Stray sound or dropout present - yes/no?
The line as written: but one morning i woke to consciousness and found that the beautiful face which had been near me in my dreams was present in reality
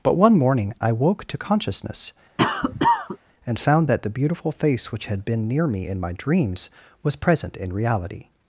yes